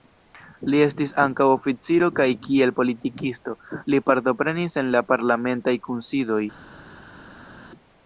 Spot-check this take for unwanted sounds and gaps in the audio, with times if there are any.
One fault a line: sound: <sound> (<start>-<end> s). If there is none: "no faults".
no faults